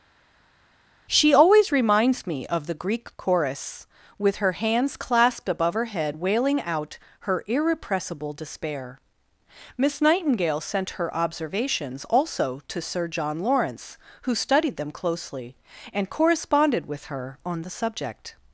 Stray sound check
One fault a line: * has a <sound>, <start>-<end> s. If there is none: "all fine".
all fine